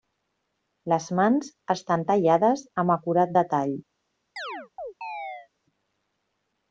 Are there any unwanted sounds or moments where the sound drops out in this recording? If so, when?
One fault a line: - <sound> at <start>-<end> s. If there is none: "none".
- chirp at 4.4-5.5 s